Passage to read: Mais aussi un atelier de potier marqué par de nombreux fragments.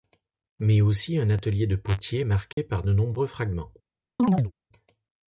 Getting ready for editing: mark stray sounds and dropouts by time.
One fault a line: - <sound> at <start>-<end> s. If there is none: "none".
- dropout at 2.5-2.6 s
- chirp at 4.2-4.5 s